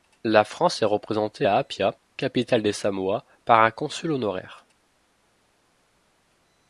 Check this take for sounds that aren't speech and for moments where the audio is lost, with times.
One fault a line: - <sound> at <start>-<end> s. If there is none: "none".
none